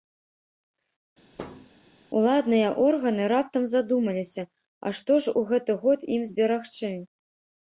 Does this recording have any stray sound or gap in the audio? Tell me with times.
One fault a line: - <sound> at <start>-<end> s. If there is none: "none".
- thud at 1.4-1.7 s